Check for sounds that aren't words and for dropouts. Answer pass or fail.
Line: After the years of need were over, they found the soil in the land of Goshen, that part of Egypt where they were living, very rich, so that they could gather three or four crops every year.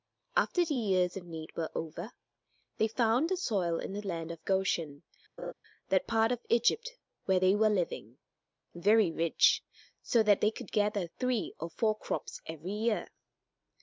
fail